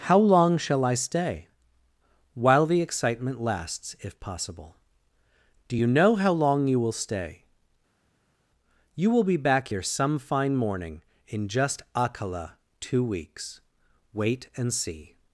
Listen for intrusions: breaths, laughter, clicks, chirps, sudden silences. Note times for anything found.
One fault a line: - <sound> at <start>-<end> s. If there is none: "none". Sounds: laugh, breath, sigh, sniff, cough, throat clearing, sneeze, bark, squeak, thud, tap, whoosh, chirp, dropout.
none